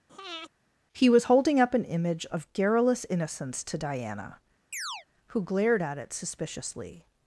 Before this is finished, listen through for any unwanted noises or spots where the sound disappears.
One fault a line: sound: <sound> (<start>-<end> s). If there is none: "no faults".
sound: breath (0.1-0.5 s)
sound: chirp (4.7-5.1 s)